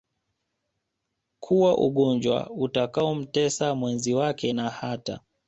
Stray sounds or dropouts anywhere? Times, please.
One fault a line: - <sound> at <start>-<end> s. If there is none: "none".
none